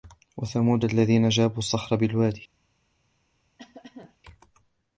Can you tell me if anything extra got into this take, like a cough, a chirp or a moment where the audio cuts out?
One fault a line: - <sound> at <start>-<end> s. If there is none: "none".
- cough at 3.6-4.2 s